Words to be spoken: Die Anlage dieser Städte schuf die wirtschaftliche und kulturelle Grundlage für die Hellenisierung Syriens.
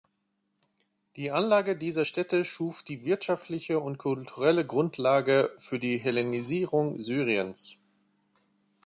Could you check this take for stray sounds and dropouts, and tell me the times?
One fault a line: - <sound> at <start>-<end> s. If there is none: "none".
none